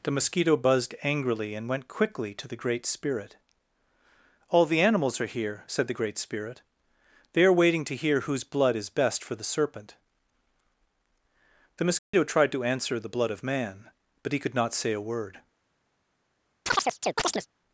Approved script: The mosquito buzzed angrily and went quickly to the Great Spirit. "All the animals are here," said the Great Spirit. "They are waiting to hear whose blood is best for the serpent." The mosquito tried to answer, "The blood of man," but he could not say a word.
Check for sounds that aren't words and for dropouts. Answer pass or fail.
fail